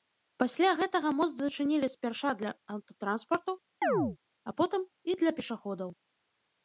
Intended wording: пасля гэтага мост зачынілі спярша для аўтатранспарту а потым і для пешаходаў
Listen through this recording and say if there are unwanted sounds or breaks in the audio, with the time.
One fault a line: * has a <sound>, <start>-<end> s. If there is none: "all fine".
* has a chirp, 3.8-4.2 s